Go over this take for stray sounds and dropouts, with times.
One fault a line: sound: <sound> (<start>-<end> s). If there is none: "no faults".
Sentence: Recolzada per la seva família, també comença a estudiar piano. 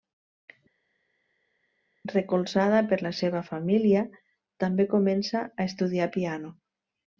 no faults